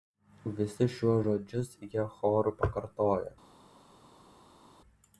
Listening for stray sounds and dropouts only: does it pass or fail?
pass